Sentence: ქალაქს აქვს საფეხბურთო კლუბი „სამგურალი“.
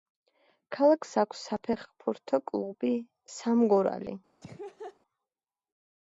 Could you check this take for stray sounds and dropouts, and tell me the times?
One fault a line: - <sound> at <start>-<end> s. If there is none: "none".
- laugh at 4.4-5.0 s